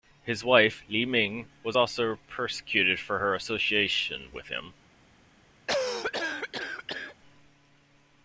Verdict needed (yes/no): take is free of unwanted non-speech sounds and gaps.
no